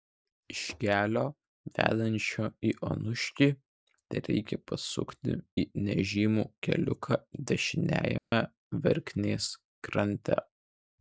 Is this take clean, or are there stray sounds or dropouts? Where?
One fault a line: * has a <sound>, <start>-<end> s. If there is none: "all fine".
* has a dropout, 8.2-8.3 s